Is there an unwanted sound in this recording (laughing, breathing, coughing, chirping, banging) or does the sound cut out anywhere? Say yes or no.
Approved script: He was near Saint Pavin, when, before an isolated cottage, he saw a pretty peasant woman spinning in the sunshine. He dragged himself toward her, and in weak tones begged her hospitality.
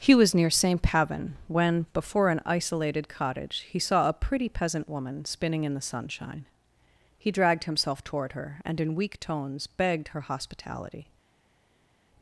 no